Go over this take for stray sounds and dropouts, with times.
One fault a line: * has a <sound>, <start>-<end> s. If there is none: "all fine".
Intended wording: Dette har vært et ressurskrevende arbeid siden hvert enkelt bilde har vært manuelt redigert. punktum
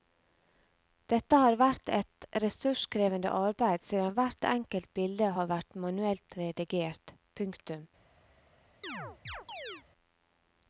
* has a chirp, 8.8-9.8 s